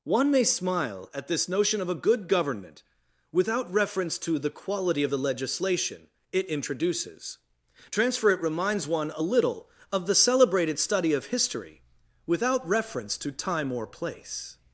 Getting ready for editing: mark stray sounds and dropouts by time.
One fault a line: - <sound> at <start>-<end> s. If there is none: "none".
none